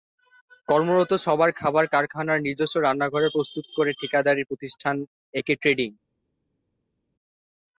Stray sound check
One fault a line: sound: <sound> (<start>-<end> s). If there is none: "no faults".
no faults